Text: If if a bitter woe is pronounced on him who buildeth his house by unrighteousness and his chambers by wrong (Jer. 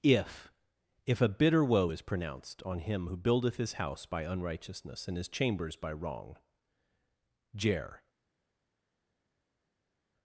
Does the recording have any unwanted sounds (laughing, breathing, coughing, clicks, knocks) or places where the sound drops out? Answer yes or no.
no